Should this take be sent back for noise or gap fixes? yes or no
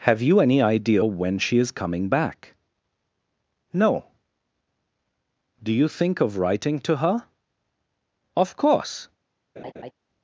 yes